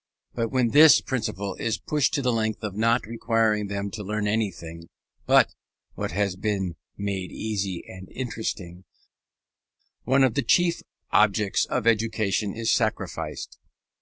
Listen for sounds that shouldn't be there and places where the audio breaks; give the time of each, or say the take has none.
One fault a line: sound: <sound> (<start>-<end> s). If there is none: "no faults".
no faults